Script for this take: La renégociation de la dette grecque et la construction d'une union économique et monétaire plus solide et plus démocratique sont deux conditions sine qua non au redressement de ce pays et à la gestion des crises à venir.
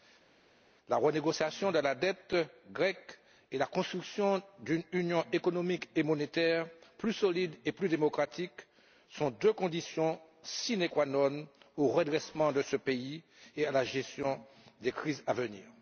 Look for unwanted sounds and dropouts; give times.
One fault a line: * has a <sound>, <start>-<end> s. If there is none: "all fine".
all fine